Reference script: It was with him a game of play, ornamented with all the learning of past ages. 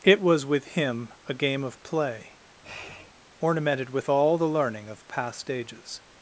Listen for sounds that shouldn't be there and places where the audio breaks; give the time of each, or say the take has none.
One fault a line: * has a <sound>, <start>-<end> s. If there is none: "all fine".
* has a sniff, 2.6-3.1 s